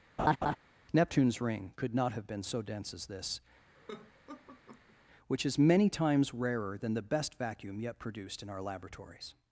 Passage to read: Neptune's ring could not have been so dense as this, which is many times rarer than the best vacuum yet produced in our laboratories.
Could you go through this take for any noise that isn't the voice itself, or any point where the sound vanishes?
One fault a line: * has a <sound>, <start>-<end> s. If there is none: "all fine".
* has a laugh, 0.2-0.6 s
* has a laugh, 3.7-5.0 s